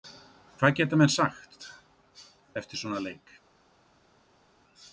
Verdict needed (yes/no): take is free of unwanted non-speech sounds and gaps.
yes